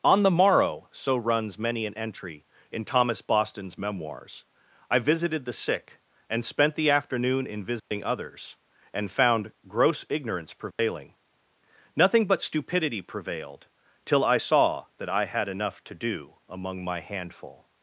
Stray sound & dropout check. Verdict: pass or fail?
fail